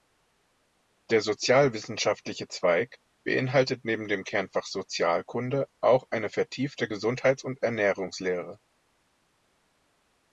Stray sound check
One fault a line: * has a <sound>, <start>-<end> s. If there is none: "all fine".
all fine